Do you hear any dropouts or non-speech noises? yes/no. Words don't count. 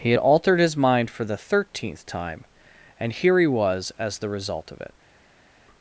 no